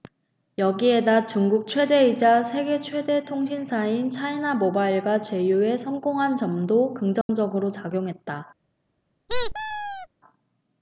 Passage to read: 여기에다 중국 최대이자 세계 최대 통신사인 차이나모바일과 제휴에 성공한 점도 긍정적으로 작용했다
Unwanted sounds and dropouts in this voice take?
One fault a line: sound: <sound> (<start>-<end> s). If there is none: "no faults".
sound: dropout (7.2-7.3 s)
sound: squeak (9.3-10.1 s)